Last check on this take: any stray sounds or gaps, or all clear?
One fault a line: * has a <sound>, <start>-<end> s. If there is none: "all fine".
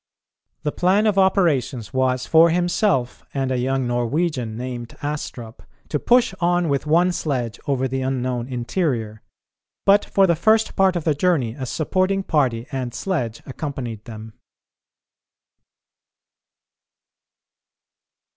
all fine